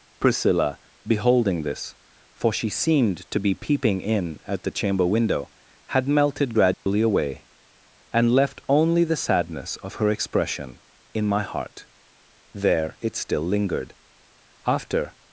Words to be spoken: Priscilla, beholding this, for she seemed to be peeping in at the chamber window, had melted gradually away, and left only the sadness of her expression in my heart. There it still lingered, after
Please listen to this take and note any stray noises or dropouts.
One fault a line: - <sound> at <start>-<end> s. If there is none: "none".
- dropout at 6.7-6.9 s